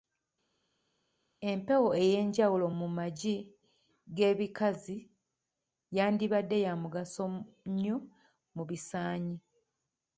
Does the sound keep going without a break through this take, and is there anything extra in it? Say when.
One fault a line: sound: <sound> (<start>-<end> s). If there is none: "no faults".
no faults